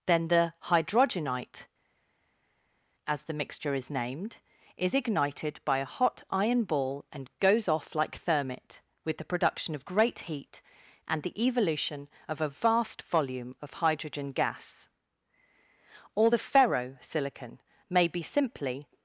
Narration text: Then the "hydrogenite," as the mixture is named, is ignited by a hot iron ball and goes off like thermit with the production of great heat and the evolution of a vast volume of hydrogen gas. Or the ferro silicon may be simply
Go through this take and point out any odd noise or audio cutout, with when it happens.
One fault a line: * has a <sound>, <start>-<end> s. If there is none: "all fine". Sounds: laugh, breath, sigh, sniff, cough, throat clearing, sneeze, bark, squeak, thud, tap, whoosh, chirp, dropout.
all fine